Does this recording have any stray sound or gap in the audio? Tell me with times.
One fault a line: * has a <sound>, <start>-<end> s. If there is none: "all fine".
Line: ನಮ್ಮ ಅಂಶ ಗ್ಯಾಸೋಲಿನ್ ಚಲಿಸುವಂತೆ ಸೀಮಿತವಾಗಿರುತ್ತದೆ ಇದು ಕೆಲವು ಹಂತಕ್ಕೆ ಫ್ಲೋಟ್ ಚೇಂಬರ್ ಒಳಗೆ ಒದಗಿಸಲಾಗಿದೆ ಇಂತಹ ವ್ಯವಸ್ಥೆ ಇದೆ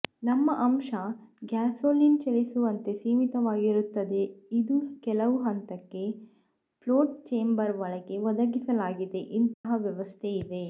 * has a dropout, 9.5-9.6 s